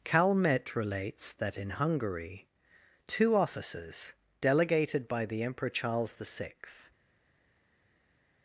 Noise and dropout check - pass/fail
pass